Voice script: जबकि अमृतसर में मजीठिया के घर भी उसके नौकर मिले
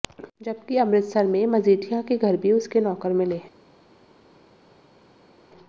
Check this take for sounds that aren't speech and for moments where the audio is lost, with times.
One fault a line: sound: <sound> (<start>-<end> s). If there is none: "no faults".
no faults